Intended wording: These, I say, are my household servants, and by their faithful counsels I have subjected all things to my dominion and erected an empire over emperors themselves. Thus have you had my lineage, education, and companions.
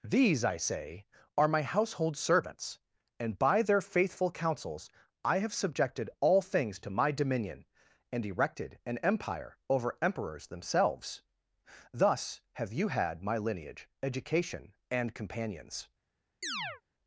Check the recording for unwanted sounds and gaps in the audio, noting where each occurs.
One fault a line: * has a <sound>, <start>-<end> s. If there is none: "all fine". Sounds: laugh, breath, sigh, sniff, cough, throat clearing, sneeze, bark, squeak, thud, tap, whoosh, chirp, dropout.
* has a chirp, 16.4-16.8 s